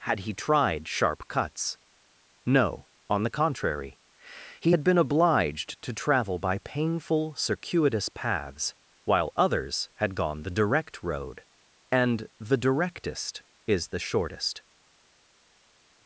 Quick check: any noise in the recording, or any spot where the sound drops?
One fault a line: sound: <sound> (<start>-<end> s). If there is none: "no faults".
no faults